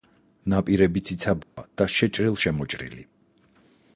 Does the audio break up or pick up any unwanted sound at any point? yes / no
yes